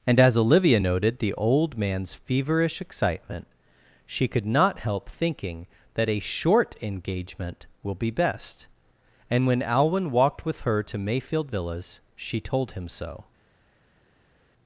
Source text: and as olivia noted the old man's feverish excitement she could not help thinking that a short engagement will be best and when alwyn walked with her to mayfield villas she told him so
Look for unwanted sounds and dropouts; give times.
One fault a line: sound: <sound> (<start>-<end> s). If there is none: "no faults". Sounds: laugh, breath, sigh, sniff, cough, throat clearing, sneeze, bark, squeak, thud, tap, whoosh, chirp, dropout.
no faults